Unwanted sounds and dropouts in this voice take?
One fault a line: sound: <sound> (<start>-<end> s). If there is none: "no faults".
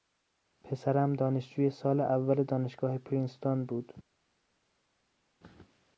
no faults